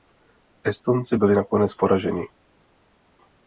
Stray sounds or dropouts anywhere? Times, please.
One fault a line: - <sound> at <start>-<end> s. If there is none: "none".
none